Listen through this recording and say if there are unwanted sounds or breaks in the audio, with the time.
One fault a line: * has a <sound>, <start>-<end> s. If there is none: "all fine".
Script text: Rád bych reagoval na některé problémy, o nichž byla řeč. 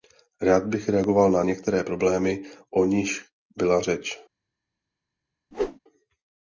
* has a whoosh, 5.5-5.8 s